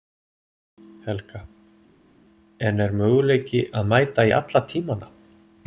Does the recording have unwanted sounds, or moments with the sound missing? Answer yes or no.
no